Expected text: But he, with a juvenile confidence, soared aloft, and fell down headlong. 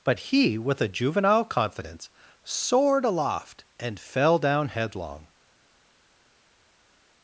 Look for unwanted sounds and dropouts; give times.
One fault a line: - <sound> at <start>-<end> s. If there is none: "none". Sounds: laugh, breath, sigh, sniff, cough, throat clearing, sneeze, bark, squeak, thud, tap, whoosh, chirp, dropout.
none